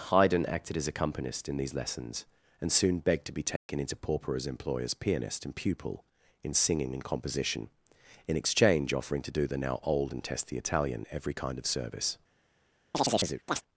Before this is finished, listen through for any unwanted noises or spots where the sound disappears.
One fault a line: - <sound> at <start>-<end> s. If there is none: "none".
- dropout at 3.6-3.7 s
- chirp at 12.9-13.6 s